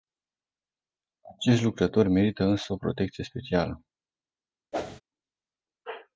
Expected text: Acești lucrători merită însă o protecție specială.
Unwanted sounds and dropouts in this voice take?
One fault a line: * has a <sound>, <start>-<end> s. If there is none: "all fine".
* has a whoosh, 4.7-5.0 s